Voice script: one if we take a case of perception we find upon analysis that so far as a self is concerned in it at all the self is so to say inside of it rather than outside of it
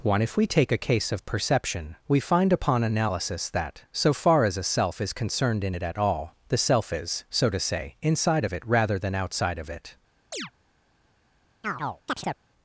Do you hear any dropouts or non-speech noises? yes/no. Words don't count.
yes